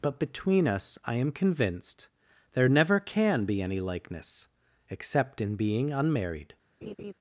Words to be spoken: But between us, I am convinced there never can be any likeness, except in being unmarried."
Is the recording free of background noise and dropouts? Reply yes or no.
no